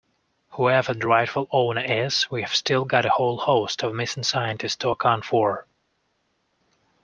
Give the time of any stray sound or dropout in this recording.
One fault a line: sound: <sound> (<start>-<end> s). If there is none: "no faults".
no faults